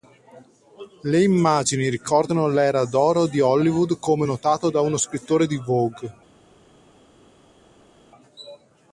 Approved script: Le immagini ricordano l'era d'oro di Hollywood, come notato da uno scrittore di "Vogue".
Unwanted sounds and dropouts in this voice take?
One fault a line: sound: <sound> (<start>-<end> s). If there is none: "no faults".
no faults